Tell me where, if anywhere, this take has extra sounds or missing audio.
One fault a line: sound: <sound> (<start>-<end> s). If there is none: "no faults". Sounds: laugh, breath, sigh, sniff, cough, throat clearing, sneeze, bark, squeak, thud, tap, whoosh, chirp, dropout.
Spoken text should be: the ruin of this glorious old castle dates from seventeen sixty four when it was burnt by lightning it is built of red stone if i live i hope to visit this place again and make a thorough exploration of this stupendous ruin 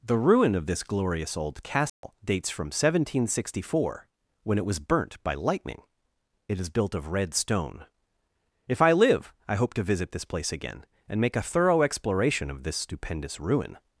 sound: dropout (1.9-2.0 s)